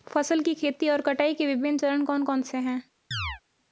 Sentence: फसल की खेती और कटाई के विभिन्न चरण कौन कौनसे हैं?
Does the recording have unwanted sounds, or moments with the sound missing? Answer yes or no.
yes